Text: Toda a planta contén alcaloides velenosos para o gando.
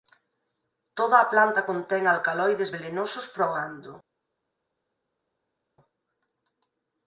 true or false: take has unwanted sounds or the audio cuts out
false